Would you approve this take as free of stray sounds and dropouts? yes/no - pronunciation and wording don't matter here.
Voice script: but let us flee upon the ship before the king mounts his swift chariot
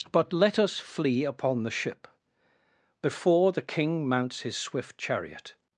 yes